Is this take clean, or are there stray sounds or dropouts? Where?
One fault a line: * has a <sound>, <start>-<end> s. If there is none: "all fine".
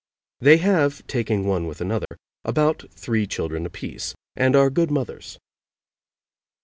* has a dropout, 2.1-2.1 s